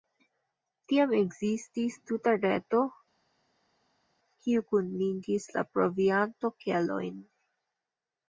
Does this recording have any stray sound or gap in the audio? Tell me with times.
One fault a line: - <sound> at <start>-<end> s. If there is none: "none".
none